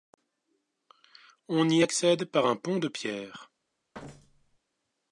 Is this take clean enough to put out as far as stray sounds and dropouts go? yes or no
no